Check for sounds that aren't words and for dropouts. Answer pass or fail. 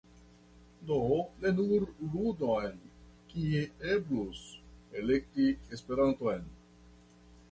pass